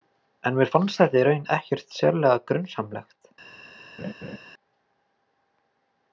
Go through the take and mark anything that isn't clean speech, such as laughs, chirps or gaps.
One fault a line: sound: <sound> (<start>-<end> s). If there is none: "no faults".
sound: laugh (4.0-4.4 s)